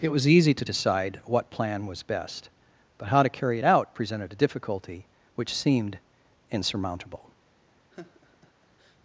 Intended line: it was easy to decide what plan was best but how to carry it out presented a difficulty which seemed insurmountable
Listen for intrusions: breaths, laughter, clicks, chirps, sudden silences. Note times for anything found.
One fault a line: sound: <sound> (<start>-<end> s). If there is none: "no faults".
sound: laugh (7.9-9.0 s)